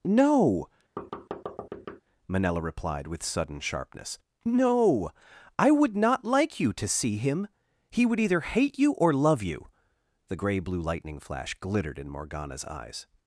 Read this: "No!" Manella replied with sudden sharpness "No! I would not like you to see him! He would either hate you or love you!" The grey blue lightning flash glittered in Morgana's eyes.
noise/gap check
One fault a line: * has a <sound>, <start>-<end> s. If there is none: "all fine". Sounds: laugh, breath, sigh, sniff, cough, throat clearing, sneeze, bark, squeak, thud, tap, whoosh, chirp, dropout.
* has a thud, 1.0-2.0 s